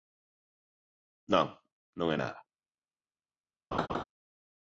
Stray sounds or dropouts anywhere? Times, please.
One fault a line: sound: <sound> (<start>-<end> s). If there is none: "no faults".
sound: laugh (3.7-4.0 s)